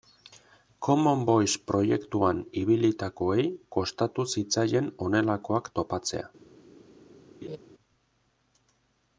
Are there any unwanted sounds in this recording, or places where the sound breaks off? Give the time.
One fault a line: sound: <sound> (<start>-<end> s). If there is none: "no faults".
sound: laugh (7.4-7.6 s)